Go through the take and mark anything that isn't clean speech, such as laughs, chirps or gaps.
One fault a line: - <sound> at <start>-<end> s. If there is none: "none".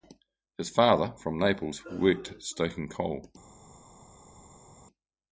none